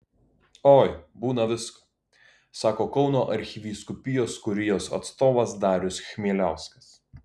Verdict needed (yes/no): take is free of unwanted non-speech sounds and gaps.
yes